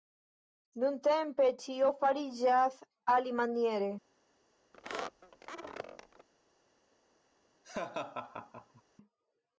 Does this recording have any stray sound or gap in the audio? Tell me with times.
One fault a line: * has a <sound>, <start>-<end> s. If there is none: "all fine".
* has a squeak, 4.7-6.3 s
* has a laugh, 7.6-8.8 s